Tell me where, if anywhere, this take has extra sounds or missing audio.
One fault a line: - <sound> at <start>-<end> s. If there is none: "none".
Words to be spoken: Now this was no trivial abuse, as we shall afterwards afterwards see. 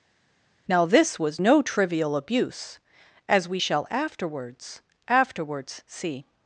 none